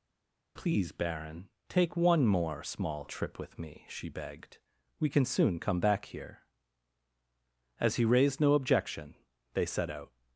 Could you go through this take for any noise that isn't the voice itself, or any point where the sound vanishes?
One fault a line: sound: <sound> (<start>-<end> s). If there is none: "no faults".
no faults